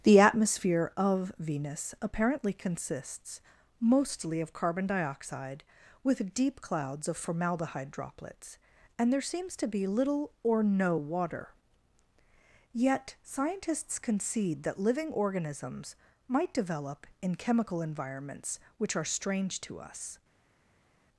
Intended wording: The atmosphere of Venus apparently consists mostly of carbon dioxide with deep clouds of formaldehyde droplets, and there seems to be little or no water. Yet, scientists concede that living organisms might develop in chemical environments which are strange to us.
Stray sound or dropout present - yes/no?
no